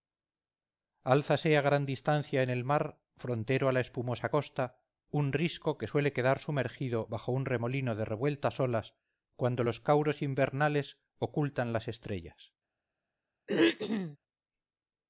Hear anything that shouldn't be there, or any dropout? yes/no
yes